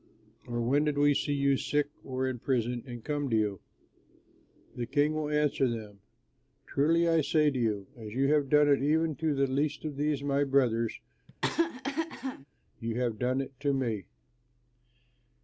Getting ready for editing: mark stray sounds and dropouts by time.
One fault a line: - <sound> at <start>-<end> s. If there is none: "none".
- cough at 11.3-12.5 s